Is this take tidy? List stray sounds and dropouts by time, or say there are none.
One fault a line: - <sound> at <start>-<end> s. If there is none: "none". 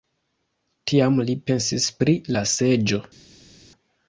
none